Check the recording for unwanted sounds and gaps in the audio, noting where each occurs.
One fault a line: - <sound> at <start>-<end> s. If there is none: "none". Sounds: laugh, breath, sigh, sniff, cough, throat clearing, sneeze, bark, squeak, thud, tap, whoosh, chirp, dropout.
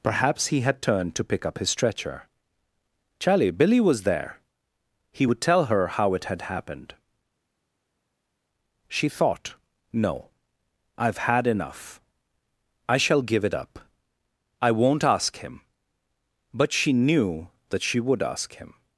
none